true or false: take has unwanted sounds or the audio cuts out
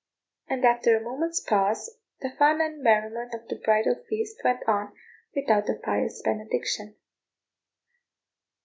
false